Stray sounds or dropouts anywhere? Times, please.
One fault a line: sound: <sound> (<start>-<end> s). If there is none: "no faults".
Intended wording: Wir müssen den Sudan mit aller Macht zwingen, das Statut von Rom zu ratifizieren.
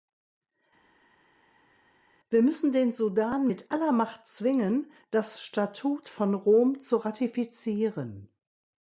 no faults